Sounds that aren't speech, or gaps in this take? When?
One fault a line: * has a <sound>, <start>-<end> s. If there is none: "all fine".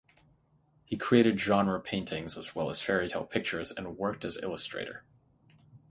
all fine